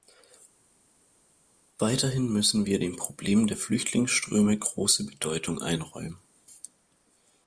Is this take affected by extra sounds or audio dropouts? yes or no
no